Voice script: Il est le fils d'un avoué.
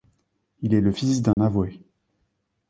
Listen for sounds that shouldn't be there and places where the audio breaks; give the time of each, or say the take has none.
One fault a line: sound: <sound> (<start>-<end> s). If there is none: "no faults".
sound: dropout (1.3-1.4 s)